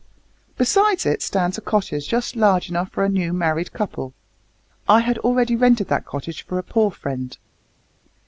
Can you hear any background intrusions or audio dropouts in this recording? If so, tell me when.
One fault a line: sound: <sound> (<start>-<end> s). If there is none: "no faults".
no faults